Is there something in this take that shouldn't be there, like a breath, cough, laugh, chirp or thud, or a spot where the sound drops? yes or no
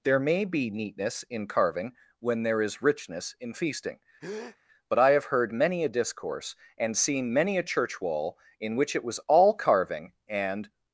yes